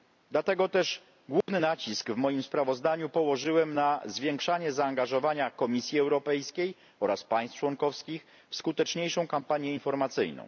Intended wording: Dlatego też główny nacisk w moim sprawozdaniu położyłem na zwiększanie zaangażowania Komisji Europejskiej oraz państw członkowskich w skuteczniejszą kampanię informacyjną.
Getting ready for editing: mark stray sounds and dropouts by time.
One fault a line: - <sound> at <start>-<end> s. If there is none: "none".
- dropout at 1.4-1.5 s